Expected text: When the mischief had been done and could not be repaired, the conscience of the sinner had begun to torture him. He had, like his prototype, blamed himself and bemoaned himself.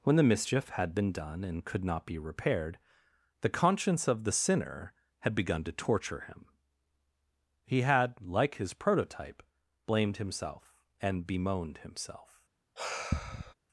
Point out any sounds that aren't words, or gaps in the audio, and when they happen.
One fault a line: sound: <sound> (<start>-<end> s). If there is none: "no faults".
sound: sigh (12.8-13.5 s)